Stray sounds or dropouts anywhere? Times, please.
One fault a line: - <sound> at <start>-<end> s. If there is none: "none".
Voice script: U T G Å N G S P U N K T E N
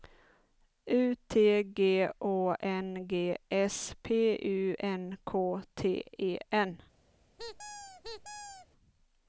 - squeak at 7.4-8.7 s